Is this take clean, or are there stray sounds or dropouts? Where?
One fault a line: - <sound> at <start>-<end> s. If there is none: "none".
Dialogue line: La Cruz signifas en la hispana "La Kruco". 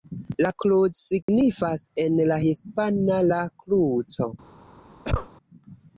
- dropout at 1.2-1.3 s
- cough at 5.0-5.3 s